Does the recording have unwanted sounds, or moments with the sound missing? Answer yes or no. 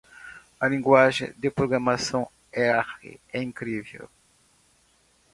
no